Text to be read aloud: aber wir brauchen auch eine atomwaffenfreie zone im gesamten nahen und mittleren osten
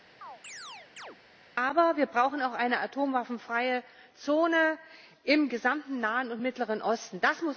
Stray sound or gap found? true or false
true